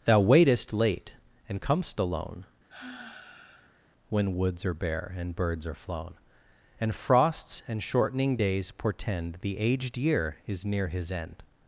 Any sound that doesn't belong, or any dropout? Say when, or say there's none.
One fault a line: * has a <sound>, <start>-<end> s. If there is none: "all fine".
* has a sigh, 2.7-3.8 s